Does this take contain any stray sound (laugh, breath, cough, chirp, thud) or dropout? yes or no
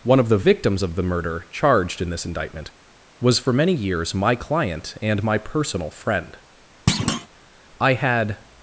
yes